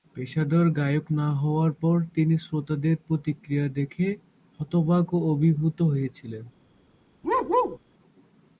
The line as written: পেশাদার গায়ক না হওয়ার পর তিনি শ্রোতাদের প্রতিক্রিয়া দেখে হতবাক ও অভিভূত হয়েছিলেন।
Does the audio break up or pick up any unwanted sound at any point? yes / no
yes